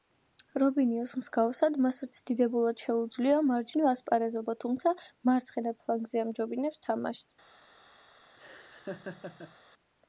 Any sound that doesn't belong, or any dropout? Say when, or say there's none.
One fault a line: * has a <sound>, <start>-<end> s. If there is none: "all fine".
* has a laugh, 8.4-9.6 s